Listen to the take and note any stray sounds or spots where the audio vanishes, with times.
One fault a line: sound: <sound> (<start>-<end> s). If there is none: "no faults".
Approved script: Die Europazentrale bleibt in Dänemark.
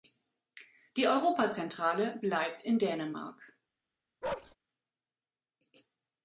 sound: bark (4.2-4.6 s)